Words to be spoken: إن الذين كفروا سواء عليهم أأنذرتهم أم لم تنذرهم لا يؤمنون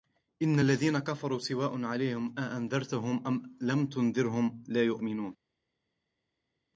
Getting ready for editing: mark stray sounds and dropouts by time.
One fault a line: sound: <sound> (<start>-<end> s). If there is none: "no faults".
no faults